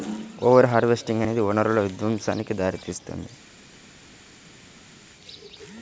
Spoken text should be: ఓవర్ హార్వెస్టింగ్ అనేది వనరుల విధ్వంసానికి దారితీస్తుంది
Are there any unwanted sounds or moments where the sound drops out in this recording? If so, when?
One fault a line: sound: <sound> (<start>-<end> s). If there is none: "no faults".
no faults